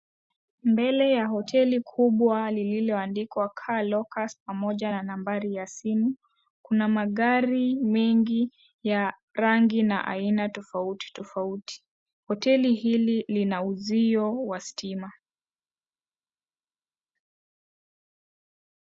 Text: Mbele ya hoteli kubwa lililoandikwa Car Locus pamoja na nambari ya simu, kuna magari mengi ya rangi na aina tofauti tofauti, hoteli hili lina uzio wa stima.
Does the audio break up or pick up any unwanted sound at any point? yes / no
no